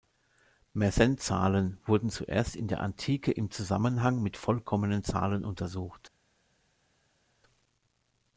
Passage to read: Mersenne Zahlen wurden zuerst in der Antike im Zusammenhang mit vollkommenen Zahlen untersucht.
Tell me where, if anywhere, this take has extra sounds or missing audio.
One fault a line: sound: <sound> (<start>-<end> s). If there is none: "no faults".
no faults